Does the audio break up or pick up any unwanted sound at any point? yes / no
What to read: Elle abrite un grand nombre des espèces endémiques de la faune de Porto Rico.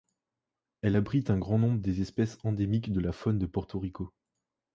no